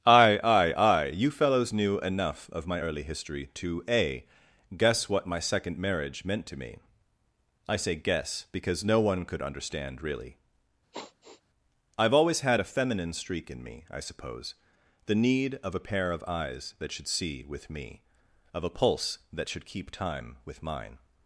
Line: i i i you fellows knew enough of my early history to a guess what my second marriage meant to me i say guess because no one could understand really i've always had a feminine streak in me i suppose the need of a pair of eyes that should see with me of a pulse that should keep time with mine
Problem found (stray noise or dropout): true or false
true